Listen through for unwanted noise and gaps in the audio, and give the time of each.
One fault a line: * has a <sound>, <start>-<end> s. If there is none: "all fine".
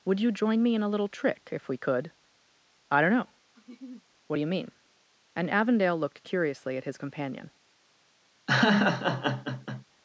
* has a laugh, 3.5-4.1 s
* has a laugh, 8.5-9.8 s